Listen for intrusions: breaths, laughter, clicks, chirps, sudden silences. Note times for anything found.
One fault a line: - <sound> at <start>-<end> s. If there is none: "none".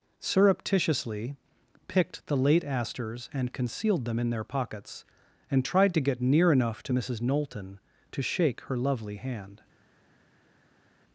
none